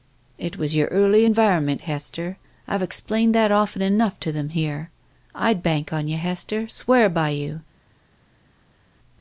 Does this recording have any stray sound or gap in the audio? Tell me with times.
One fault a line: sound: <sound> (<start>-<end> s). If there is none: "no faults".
no faults